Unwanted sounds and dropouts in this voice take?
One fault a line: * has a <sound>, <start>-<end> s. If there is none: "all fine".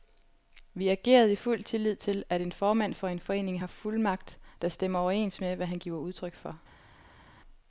all fine